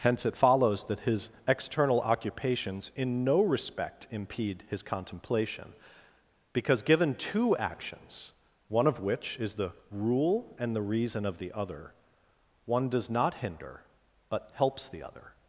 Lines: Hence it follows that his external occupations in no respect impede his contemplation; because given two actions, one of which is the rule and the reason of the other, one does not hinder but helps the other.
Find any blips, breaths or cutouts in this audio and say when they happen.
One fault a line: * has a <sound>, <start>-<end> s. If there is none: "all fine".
all fine